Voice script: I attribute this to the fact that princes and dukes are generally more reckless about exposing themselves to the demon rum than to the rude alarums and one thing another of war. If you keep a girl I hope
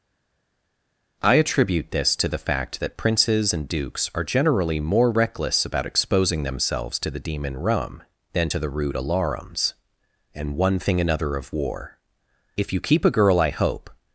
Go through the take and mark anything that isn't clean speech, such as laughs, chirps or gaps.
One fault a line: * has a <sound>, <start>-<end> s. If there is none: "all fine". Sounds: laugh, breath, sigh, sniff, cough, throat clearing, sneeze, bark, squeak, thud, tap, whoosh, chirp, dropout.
all fine